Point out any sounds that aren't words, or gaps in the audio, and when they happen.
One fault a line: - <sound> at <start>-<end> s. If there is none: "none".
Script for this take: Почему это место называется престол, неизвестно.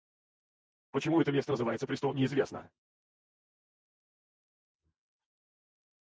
none